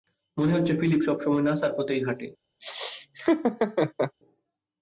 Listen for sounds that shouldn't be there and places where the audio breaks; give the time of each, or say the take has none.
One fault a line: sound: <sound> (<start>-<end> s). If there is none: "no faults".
sound: laugh (2.6-4.1 s)